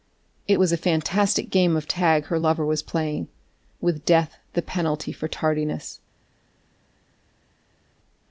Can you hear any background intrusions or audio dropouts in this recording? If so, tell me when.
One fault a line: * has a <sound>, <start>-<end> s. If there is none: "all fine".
all fine